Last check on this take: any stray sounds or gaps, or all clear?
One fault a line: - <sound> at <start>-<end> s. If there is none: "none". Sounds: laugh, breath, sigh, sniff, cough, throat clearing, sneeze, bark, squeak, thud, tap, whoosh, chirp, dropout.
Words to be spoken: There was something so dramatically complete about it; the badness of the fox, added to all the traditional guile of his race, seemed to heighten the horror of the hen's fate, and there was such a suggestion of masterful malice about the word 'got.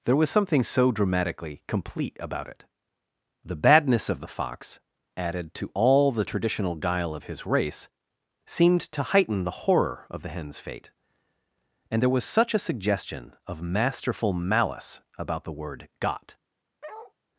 - bark at 16.8-17.1 s